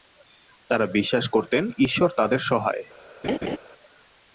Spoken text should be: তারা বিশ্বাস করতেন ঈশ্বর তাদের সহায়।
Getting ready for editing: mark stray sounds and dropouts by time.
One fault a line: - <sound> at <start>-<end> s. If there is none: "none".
- laugh at 3.2-3.6 s